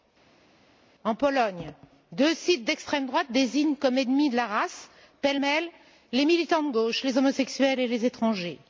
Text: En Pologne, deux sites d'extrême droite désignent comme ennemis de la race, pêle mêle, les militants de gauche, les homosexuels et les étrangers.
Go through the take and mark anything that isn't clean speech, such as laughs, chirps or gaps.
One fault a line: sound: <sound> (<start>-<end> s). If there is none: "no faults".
no faults